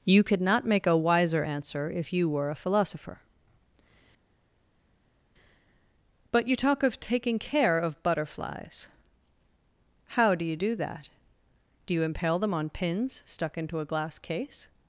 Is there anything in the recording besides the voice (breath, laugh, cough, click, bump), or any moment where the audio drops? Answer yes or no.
no